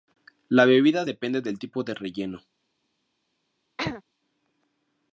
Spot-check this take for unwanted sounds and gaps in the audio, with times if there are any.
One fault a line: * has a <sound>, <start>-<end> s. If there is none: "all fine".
* has a throat clearing, 3.8-4.0 s